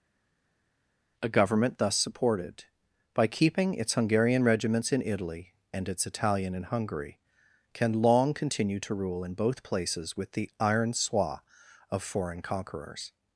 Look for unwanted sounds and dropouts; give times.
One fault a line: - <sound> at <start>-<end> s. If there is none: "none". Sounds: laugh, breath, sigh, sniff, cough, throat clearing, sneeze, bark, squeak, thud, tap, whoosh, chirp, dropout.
none